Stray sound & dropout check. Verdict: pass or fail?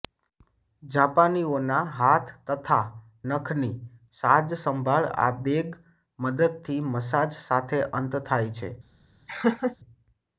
fail